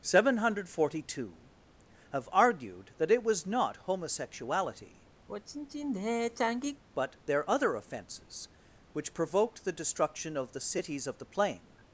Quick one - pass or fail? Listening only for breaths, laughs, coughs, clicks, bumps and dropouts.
fail